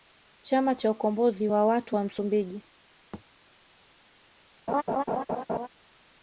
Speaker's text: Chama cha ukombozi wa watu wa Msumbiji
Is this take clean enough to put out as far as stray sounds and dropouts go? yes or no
no